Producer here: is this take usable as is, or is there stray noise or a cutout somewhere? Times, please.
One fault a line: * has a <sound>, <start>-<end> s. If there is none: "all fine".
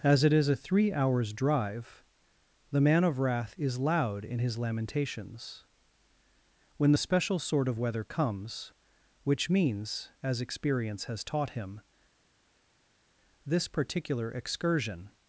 all fine